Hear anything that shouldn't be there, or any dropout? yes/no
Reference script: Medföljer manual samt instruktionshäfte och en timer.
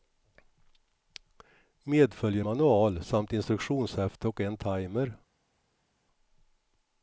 no